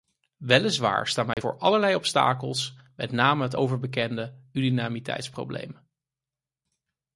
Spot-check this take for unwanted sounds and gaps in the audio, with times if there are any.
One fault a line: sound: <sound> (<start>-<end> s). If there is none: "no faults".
sound: dropout (1.3-1.4 s)